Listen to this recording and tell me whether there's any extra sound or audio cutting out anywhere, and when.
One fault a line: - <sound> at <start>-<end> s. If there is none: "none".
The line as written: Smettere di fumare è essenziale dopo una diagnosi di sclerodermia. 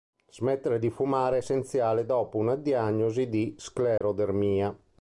- dropout at 4.0-4.0 s